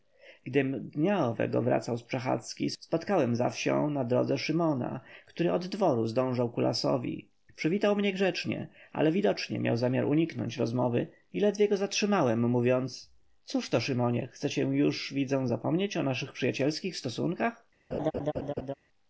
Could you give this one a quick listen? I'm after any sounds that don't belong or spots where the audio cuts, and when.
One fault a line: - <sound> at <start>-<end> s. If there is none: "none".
- laugh at 17.9-18.7 s